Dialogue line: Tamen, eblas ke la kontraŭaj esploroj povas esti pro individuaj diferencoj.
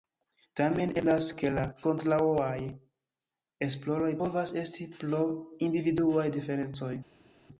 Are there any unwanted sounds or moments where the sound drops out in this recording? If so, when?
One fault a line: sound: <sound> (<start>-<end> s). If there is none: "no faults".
no faults